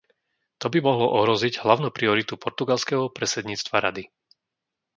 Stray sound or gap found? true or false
false